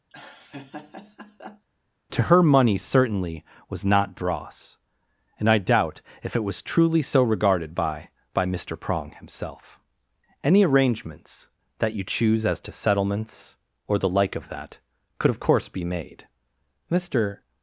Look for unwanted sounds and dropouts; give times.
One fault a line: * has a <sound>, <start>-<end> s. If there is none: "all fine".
* has a laugh, 0.1-1.7 s